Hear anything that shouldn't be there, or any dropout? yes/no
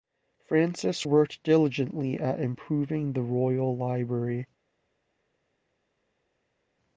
no